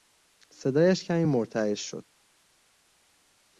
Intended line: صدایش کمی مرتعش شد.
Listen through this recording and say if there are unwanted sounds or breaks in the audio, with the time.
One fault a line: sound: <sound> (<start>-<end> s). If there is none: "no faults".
no faults